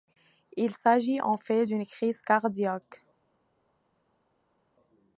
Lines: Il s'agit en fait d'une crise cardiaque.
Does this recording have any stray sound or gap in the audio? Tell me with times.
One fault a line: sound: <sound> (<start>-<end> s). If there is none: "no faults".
no faults